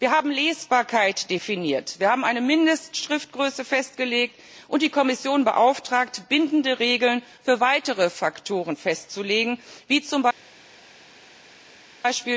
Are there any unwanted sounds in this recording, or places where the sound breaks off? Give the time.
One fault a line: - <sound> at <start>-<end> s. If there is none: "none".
none